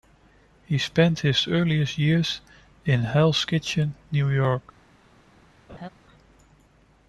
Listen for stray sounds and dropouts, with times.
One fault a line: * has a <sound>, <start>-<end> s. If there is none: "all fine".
* has a laugh, 5.7-5.9 s